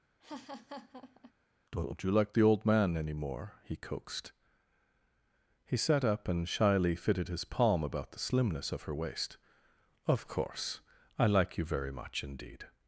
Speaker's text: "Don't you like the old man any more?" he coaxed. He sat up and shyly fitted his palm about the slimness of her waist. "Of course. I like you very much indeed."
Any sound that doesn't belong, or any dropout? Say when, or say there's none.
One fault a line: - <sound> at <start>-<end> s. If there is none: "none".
- laugh at 0.2-1.3 s